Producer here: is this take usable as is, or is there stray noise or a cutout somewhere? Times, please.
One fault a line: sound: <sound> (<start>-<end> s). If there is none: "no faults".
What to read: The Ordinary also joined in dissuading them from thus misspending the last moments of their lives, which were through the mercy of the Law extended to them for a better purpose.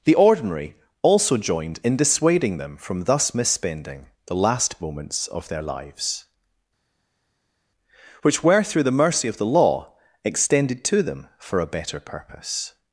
no faults